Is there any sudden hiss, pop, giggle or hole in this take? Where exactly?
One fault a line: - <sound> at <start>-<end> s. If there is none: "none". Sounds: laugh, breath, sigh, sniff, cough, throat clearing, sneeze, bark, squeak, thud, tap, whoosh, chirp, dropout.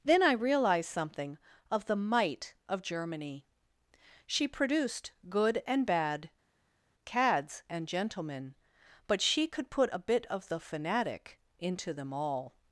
none